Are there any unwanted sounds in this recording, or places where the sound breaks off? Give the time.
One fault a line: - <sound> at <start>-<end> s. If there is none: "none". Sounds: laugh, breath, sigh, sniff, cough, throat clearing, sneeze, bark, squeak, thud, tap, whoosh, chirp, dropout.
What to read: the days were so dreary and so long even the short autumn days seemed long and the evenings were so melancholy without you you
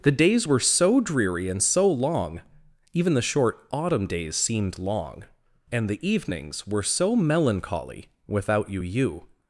none